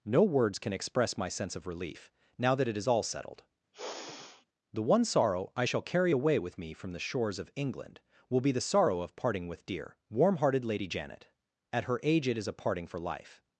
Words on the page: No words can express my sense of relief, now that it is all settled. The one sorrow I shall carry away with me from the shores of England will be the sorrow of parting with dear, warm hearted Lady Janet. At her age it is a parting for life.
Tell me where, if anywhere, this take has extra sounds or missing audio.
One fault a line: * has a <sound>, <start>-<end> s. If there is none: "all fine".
* has a sigh, 3.7-4.5 s